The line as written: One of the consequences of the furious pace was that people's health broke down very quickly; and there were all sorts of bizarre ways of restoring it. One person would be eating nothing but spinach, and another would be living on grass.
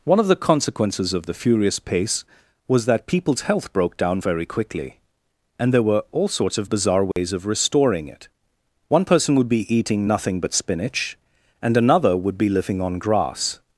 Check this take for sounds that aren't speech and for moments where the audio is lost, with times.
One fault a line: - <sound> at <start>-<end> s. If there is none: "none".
- dropout at 7.1-7.2 s